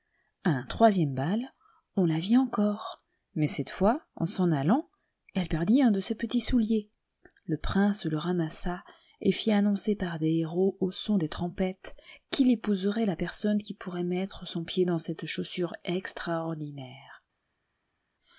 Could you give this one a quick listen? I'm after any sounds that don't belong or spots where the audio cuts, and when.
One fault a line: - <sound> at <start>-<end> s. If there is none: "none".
none